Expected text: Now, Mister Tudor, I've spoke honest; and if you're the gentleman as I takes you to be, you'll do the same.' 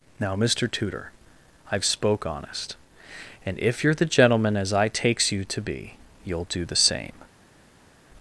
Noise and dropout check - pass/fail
pass